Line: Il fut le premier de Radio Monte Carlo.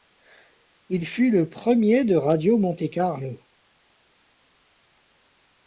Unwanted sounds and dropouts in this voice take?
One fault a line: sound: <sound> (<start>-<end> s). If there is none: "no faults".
no faults